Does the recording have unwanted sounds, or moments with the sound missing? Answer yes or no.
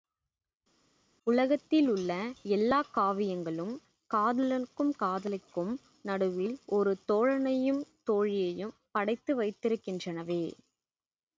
no